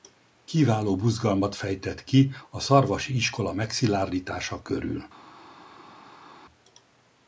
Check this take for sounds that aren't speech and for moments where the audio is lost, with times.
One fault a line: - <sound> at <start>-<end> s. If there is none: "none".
none